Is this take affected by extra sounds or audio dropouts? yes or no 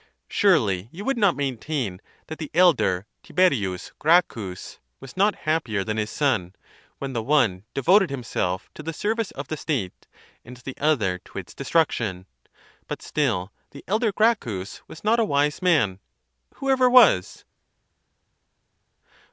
no